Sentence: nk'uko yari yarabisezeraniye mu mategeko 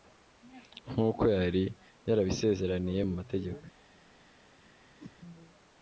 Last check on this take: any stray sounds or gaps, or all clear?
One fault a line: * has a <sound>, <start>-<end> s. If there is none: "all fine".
* has a whoosh, 5.0-5.2 s